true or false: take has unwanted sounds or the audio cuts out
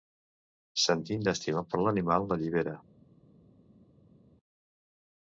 false